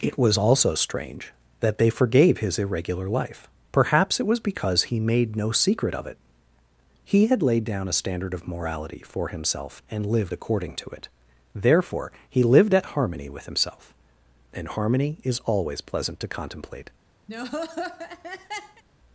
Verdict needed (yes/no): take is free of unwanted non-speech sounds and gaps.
no